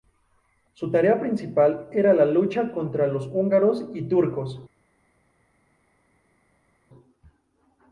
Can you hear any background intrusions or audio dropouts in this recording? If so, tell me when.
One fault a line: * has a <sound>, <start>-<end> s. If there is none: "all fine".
all fine